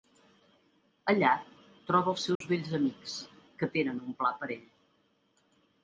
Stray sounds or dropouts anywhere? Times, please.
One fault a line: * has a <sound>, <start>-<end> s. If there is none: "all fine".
* has a dropout, 2.4-2.4 s